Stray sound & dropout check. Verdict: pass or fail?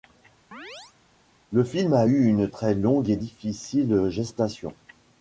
fail